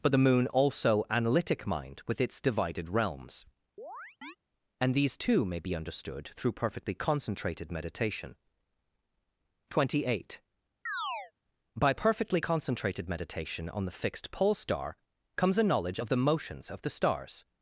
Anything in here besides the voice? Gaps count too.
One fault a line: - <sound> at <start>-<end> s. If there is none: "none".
- chirp at 3.8-4.4 s
- chirp at 10.9-11.3 s